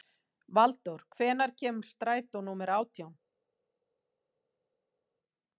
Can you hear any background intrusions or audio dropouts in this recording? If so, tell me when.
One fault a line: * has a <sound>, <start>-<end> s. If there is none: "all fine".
all fine